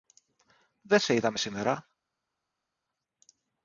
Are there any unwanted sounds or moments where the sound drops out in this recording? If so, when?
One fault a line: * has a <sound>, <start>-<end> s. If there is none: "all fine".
all fine